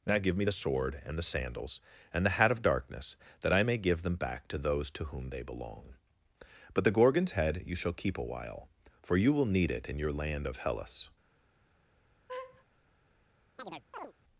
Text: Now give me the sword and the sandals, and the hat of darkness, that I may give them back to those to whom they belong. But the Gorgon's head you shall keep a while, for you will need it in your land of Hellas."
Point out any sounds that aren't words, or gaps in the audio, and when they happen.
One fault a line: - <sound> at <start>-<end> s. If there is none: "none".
- laugh at 12.3-12.6 s
- chirp at 13.6-14.1 s